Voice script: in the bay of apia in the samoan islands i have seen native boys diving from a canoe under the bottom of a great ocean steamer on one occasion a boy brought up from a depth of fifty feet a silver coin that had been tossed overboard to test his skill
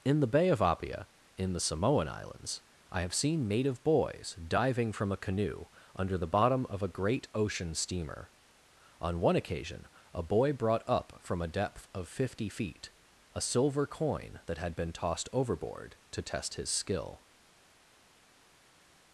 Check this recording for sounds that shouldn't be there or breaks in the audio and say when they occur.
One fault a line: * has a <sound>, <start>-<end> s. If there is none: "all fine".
all fine